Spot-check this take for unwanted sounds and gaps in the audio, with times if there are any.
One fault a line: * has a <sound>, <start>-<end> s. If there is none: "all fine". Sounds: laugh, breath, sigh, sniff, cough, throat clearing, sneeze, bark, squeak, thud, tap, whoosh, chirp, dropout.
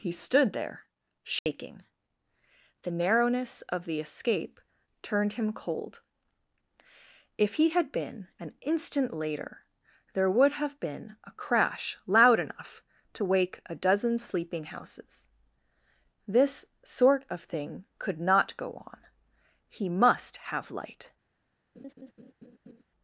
* has a dropout, 1.4-1.5 s
* has a laugh, 21.7-22.8 s